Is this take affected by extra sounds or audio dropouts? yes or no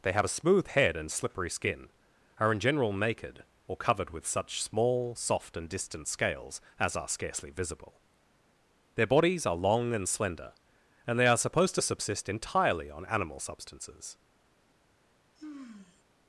yes